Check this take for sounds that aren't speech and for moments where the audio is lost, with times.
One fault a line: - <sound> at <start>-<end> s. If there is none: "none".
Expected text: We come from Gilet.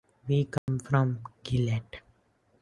- dropout at 0.6-0.7 s